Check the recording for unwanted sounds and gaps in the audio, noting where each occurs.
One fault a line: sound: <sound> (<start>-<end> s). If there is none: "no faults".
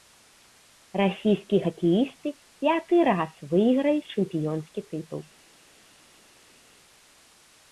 no faults